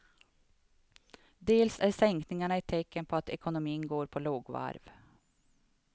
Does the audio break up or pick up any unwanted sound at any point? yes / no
no